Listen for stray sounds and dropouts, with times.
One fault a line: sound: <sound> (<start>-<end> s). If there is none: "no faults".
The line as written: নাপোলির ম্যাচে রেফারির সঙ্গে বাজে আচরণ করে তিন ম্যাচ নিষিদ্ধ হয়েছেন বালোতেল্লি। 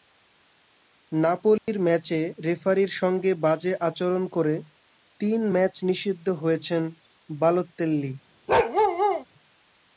sound: dropout (1.6-1.7 s)
sound: bark (8.5-9.2 s)